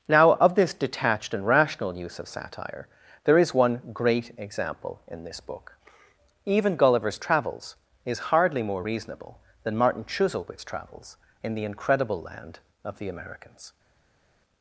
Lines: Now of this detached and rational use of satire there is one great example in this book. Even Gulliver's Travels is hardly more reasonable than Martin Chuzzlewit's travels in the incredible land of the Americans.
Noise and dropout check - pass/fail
pass